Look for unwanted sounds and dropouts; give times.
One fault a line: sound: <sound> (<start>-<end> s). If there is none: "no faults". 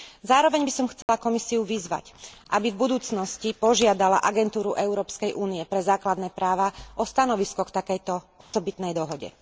sound: dropout (1.0-1.1 s)
sound: dropout (8.4-8.5 s)